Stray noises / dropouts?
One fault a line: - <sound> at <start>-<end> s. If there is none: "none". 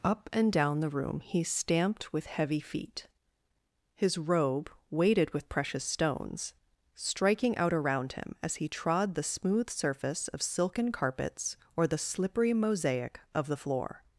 none